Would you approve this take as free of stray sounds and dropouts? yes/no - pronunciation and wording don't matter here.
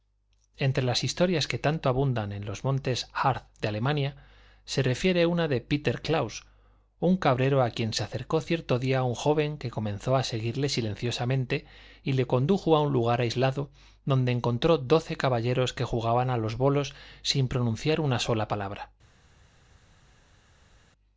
yes